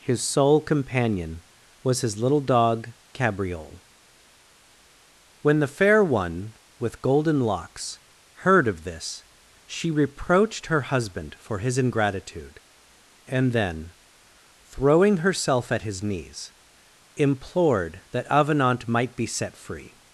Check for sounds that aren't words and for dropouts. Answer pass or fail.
pass